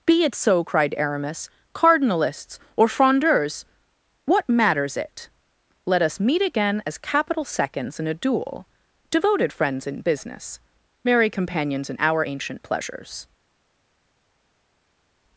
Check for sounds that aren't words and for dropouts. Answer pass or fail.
pass